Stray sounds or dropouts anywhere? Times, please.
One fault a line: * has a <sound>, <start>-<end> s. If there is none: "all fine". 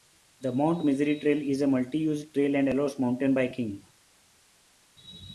all fine